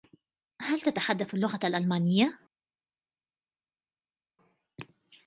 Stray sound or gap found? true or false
false